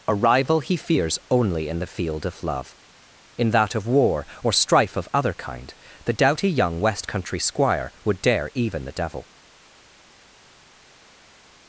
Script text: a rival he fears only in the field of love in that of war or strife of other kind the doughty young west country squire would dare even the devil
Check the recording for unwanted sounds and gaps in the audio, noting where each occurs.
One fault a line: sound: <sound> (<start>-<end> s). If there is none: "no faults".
no faults